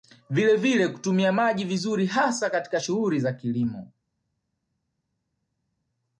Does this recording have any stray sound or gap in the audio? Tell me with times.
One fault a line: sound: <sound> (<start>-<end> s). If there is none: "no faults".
no faults